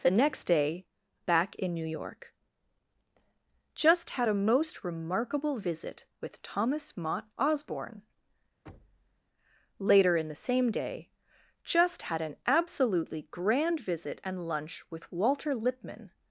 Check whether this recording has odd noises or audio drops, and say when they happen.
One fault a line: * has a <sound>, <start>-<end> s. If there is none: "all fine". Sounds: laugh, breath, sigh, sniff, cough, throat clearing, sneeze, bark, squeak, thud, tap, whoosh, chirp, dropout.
* has a thud, 8.7-9.2 s